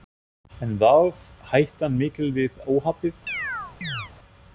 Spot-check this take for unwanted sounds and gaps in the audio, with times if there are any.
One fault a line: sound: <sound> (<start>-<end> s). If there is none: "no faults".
sound: chirp (3.3-4.1 s)